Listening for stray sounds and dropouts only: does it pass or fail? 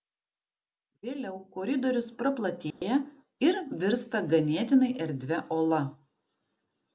fail